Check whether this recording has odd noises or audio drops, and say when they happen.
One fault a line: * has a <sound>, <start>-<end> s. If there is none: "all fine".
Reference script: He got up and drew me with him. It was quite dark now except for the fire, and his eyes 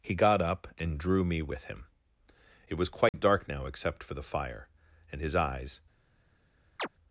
* has a dropout, 3.1-3.1 s
* has a chirp, 6.8-6.9 s